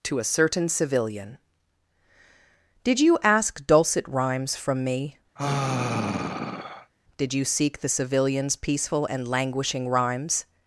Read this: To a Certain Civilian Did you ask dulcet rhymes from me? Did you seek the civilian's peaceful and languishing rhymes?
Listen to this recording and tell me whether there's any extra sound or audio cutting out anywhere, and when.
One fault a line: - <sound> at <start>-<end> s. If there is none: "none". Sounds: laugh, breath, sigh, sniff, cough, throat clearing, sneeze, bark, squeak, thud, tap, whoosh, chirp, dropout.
- sigh at 5.4-6.9 s